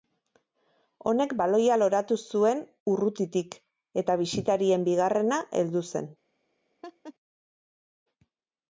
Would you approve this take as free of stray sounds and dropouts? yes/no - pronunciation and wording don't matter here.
no